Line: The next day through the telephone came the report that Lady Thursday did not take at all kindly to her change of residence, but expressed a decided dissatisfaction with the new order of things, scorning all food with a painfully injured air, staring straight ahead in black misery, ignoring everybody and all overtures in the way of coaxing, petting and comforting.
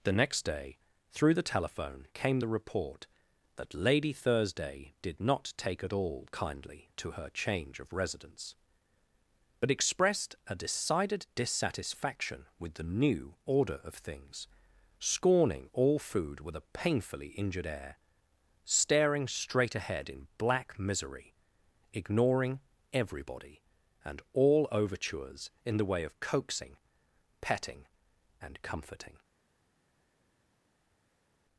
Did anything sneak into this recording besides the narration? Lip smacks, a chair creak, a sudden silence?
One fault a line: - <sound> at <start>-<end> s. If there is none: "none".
none